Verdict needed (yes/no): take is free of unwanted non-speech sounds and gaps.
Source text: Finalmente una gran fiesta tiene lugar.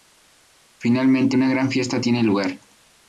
yes